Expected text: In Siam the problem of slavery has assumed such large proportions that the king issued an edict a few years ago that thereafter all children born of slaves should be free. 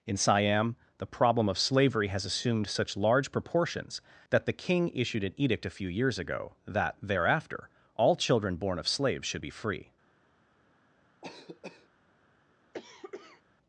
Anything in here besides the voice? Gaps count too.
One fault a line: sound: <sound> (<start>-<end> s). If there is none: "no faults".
sound: cough (11.2-11.9 s)
sound: cough (12.7-13.4 s)